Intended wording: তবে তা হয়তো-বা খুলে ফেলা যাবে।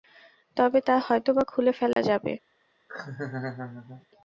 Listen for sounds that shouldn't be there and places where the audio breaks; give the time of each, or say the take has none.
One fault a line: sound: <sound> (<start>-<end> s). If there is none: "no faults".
sound: dropout (1.9-2.0 s)
sound: laugh (2.9-4.1 s)